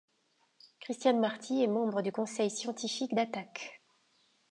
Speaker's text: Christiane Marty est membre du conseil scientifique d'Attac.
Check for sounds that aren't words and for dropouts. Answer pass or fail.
pass